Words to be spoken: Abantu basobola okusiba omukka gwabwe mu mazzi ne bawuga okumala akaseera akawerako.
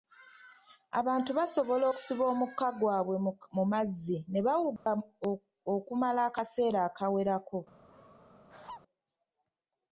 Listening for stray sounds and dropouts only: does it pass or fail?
fail